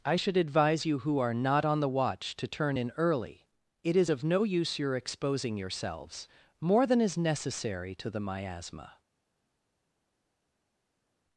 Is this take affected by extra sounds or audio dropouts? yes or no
no